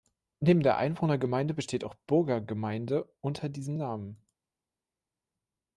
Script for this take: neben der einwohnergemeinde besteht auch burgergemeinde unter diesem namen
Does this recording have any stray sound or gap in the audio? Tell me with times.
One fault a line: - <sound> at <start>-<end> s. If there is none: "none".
none